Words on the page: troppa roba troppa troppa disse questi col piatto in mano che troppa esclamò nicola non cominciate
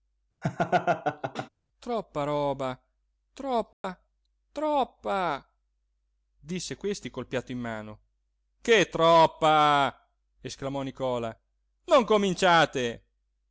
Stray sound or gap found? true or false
true